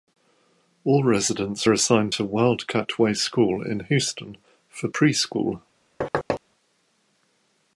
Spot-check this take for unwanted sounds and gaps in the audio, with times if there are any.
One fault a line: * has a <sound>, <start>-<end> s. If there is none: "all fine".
* has a thud, 6.0-6.4 s